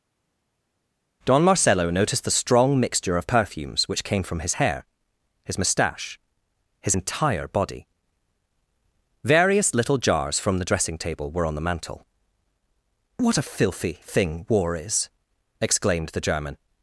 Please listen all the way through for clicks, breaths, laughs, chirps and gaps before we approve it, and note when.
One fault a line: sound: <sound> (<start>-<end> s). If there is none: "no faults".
no faults